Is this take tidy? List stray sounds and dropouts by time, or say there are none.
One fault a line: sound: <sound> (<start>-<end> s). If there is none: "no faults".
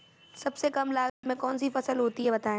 sound: dropout (1.1-1.2 s)